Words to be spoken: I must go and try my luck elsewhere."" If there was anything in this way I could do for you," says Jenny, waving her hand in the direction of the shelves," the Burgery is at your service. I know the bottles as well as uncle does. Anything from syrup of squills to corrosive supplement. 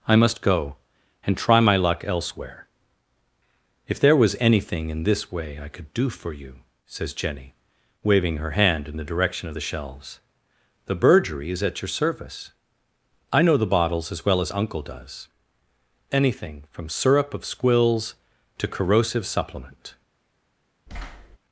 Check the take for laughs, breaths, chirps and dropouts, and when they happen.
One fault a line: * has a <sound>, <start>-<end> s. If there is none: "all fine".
* has a thud, 20.9-21.4 s